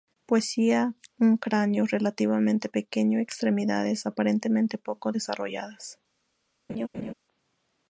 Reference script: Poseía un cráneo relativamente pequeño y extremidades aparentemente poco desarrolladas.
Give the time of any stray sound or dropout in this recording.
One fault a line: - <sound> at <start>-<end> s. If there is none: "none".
- laugh at 6.7-7.1 s